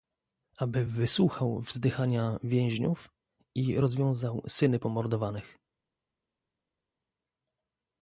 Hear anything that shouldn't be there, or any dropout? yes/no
no